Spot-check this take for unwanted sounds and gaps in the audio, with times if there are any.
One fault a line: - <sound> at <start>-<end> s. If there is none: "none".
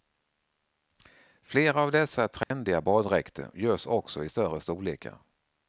- dropout at 2.4-2.5 s